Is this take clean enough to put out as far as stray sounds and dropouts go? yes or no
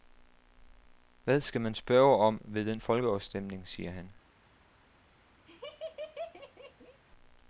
no